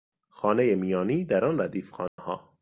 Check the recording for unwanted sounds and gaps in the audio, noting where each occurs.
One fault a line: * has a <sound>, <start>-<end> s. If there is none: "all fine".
* has a dropout, 2.1-2.2 s